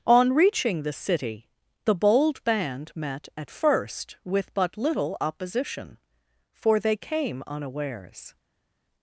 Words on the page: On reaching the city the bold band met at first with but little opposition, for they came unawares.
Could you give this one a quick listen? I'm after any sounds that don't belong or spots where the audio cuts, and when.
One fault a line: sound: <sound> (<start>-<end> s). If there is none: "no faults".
no faults